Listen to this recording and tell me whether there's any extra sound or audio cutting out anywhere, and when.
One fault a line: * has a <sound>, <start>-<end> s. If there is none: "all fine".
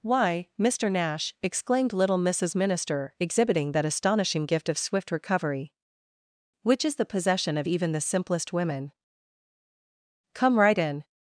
all fine